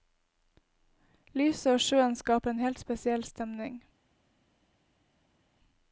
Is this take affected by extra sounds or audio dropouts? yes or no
no